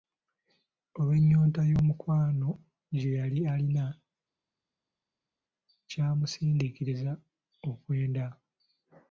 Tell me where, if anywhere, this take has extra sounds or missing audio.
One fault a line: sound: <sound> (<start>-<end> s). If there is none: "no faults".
no faults